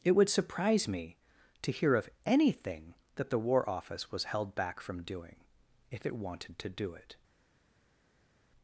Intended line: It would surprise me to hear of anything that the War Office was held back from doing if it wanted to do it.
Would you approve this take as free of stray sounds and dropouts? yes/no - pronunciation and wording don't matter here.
yes